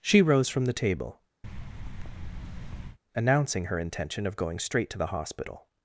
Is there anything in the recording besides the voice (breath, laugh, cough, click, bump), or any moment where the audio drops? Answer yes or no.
yes